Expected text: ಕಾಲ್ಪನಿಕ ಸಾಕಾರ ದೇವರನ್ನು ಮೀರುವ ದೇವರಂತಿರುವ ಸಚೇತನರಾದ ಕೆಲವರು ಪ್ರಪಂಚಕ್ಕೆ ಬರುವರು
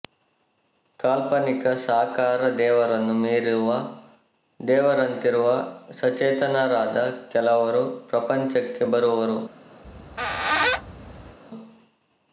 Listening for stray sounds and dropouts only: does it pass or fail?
fail